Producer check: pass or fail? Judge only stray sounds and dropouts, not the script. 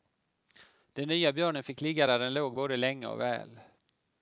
pass